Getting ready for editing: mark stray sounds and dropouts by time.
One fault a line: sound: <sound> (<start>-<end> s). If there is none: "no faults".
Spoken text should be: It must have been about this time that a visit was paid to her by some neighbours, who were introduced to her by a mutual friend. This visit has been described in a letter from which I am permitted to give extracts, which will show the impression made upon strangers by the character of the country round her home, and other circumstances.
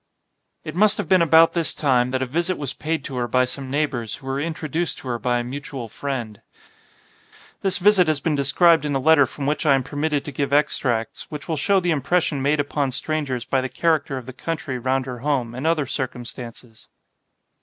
no faults